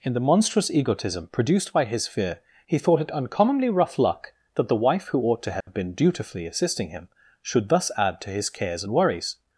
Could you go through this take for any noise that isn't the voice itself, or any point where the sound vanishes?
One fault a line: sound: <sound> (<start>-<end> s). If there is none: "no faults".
sound: dropout (5.6-5.7 s)